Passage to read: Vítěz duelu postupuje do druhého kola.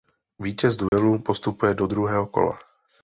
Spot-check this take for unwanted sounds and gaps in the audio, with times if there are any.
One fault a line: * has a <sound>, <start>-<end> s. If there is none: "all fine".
* has a dropout, 0.9-0.9 s